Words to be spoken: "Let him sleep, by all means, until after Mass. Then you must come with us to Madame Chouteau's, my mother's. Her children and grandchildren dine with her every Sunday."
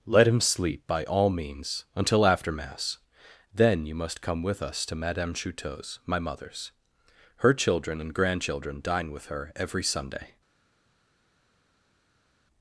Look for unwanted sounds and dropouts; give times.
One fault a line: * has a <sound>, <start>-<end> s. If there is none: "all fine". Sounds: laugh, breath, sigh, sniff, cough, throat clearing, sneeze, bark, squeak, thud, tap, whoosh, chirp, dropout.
all fine